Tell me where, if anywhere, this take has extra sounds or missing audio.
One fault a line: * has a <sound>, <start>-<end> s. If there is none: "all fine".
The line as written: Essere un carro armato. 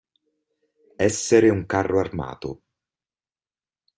all fine